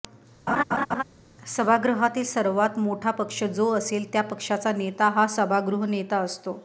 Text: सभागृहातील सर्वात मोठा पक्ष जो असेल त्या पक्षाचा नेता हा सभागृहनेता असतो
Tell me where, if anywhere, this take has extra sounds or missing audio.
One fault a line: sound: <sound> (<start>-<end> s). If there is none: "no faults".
sound: laugh (0.5-1.0 s)